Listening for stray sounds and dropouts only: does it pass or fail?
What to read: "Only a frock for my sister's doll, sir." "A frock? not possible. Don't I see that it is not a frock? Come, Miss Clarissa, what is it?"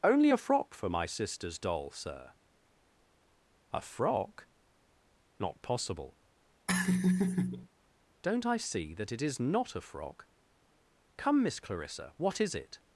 fail